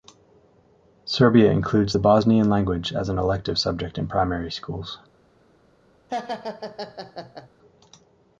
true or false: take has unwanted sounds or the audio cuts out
true